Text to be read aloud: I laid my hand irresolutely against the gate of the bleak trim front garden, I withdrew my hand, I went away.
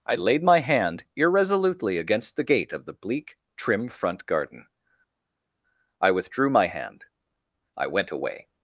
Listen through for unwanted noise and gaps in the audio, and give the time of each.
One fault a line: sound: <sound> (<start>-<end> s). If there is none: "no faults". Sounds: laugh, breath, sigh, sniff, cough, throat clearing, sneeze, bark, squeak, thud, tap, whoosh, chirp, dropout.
no faults